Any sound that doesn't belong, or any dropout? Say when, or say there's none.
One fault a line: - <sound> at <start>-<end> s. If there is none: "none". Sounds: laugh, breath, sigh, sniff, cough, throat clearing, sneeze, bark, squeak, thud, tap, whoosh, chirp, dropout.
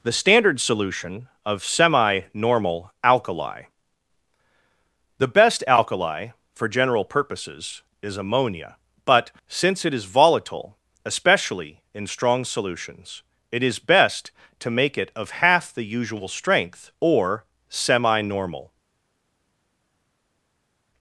none